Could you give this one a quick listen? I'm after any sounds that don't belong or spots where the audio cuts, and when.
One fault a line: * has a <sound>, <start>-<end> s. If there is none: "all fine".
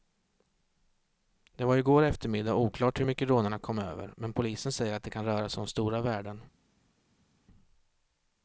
all fine